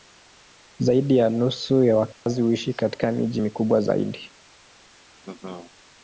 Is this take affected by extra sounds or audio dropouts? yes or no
yes